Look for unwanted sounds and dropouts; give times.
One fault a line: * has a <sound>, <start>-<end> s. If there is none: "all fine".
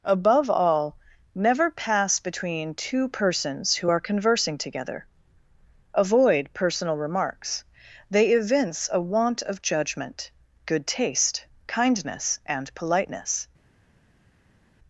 all fine